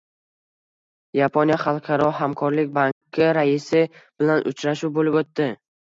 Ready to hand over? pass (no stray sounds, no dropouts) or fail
fail